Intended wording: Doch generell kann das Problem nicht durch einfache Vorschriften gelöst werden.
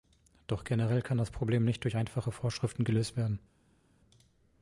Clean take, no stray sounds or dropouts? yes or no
yes